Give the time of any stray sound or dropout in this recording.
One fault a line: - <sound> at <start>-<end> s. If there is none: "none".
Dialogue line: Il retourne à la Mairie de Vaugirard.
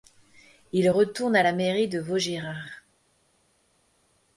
none